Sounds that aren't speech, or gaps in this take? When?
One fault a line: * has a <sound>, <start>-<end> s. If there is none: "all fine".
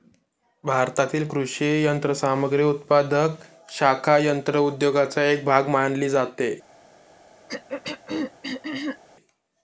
* has a throat clearing, 7.5-9.0 s